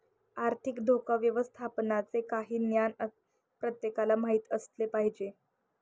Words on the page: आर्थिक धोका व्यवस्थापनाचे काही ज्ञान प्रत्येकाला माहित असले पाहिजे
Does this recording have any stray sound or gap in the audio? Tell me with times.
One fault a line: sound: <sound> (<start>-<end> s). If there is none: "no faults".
no faults